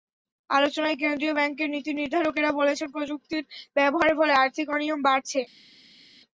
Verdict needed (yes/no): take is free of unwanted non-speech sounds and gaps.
yes